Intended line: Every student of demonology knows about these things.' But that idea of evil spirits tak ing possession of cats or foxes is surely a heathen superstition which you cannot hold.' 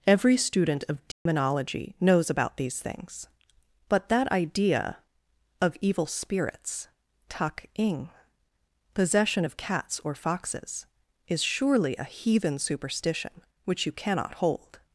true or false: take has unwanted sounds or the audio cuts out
true